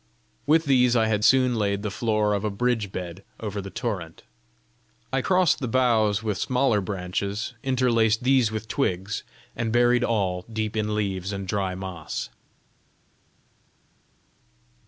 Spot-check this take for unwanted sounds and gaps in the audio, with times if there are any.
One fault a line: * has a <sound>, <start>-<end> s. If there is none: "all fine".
all fine